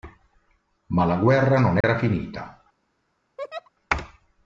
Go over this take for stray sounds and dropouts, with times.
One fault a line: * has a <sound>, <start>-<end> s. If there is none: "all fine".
* has a dropout, 1.8-1.8 s
* has a laugh, 3.4-3.7 s